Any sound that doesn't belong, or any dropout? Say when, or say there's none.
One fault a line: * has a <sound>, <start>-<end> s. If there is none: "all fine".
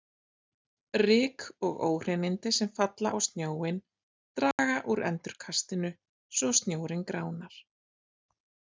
* has a dropout, 4.5-4.6 s